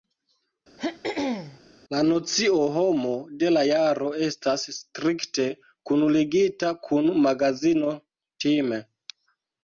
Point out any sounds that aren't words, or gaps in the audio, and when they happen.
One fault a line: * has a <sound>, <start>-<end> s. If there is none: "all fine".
* has a throat clearing, 0.8-1.6 s